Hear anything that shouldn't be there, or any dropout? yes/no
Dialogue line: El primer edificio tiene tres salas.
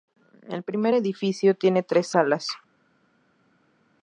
no